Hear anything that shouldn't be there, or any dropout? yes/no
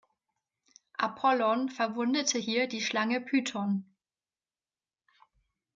no